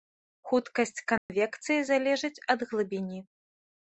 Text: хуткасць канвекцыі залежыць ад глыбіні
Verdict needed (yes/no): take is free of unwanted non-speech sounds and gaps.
no